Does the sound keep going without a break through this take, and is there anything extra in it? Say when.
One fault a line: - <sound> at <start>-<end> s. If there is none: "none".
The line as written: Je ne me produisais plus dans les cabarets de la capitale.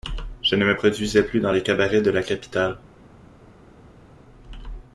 none